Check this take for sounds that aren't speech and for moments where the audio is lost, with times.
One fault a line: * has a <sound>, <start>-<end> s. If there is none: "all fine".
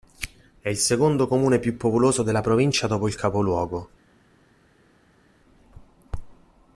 all fine